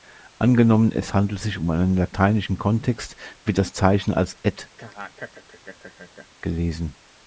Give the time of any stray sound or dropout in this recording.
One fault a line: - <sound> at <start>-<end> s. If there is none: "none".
- laugh at 4.8-6.3 s